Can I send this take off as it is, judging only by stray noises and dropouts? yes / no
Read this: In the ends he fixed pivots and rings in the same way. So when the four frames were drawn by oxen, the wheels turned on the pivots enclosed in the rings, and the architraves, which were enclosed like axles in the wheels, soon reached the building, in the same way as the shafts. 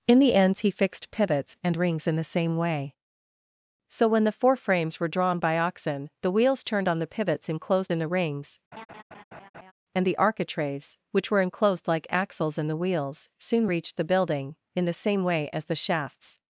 no